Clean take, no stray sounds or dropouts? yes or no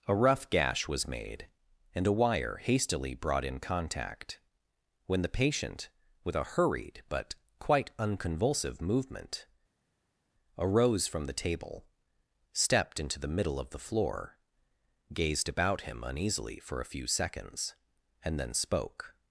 yes